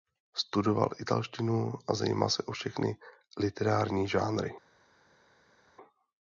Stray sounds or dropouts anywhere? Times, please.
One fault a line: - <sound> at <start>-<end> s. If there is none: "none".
none